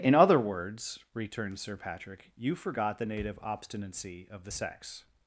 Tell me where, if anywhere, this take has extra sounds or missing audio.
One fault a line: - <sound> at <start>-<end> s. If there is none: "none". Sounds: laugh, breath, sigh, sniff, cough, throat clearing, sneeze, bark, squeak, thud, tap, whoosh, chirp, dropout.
none